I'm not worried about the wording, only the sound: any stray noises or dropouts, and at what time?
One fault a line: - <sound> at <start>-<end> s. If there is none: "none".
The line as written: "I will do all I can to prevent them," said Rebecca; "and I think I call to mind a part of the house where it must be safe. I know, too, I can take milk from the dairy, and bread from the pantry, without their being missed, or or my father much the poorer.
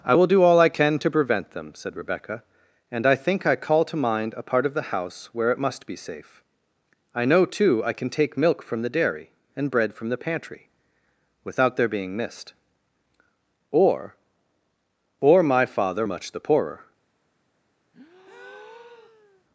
- breath at 17.9-19.4 s